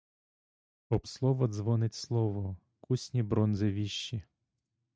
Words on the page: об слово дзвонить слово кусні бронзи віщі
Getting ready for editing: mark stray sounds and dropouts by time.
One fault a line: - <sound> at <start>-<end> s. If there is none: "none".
none